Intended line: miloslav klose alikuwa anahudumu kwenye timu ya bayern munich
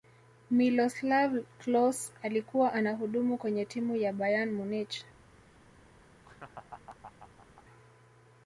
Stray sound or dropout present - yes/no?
yes